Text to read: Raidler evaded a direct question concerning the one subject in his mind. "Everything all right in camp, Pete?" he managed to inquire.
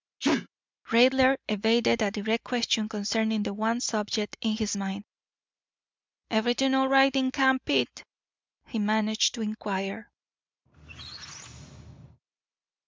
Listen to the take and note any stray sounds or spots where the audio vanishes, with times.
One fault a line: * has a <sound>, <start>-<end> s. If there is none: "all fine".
* has a sneeze, 0.2-0.5 s
* has a squeak, 10.7-12.2 s